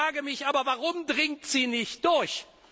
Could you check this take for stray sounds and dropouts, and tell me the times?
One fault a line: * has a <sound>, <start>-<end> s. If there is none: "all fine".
all fine